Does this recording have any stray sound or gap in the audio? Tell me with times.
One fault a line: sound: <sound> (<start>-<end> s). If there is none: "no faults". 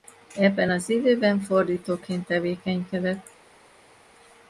no faults